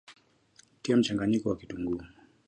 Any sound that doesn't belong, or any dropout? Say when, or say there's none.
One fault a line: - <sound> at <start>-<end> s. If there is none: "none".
none